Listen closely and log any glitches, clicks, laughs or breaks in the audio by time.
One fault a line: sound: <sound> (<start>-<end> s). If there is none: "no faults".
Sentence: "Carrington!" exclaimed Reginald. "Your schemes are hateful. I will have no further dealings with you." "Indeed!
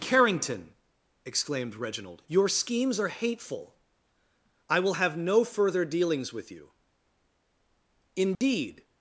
sound: dropout (8.4-8.4 s)